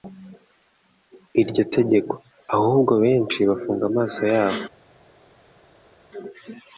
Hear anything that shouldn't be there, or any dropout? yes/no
no